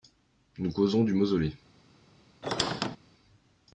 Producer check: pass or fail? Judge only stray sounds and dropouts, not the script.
fail